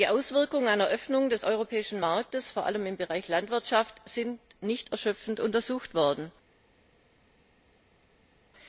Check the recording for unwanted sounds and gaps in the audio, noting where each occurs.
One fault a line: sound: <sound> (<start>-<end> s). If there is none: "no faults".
no faults